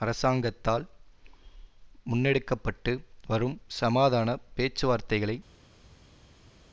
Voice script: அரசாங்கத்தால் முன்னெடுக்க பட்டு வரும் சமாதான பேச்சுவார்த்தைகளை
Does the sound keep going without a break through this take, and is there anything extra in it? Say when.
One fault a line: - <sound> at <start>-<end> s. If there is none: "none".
none